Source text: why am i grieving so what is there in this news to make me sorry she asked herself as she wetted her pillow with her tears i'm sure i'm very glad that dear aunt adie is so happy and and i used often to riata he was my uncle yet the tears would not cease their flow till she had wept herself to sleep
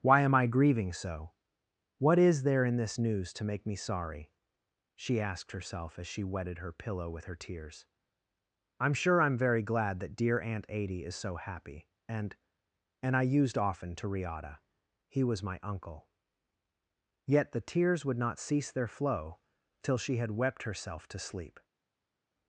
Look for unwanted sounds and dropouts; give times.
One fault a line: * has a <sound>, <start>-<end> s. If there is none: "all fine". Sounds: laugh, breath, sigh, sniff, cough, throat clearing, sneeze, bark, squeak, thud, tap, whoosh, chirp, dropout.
all fine